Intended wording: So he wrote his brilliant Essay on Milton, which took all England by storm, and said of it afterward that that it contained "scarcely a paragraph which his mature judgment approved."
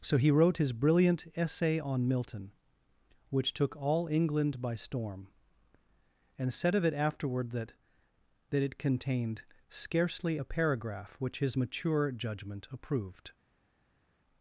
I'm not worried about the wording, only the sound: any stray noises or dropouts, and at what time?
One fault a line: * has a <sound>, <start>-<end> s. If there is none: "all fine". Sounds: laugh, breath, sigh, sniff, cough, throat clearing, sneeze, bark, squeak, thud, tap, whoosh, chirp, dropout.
all fine